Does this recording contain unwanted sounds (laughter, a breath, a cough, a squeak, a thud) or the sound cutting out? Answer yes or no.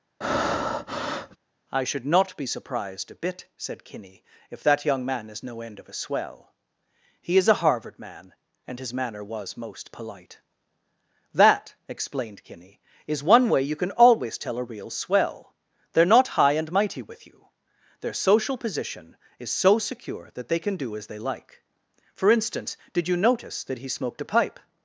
yes